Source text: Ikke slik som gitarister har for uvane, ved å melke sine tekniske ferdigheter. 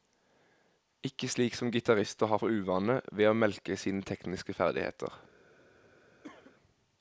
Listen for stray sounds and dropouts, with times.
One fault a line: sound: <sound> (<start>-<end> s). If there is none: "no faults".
sound: cough (6.2-6.6 s)